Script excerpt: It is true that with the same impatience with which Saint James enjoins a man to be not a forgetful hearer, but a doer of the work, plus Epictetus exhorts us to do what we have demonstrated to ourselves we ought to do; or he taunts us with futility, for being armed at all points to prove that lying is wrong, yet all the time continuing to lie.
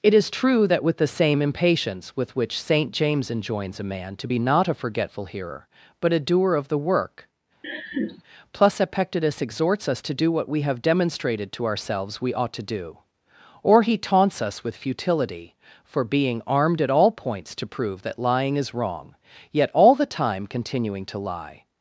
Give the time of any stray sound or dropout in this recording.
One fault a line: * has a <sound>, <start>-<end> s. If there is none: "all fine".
* has a laugh, 7.6-8.2 s